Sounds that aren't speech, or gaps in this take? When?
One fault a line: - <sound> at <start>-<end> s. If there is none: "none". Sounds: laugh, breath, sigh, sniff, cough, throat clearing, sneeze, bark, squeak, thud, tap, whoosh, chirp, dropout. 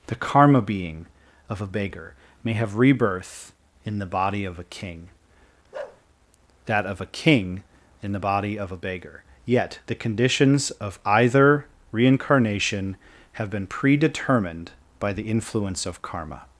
- bark at 5.7-6.0 s